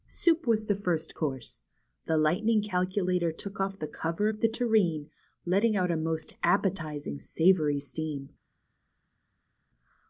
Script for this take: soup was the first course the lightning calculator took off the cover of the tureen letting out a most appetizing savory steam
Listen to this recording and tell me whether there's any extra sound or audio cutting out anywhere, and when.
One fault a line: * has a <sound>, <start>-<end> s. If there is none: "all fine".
all fine